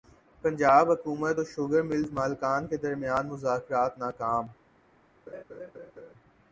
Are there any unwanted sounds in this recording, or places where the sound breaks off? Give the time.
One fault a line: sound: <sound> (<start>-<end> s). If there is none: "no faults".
sound: laugh (5.3-6.1 s)